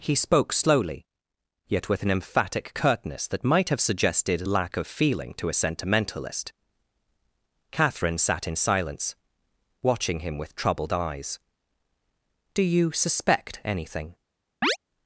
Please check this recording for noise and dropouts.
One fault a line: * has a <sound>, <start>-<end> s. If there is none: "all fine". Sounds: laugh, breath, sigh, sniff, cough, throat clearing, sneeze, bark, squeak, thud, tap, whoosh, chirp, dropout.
* has a chirp, 14.6-14.8 s